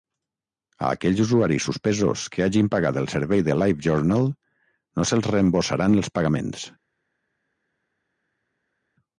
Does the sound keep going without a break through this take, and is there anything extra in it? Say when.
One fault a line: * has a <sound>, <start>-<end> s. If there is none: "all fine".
all fine